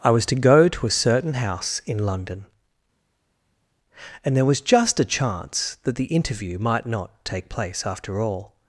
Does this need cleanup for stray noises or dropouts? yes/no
no